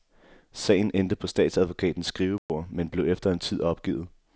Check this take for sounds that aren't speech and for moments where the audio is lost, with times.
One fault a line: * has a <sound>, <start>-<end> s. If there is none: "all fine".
* has a dropout, 2.4-2.5 s